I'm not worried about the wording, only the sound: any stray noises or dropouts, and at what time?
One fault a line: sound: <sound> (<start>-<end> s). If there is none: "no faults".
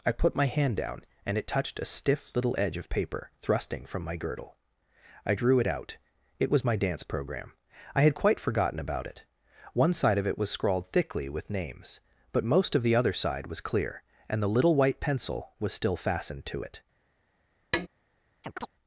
sound: tap (17.7-17.9 s)
sound: chirp (18.4-18.7 s)